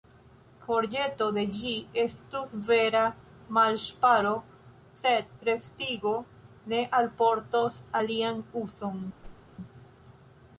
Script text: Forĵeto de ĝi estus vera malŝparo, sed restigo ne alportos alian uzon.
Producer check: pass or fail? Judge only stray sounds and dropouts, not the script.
fail